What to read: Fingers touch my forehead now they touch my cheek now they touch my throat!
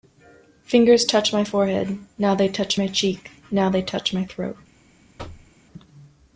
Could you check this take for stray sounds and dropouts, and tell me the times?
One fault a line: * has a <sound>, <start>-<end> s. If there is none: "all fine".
* has a thud, 5.2-5.5 s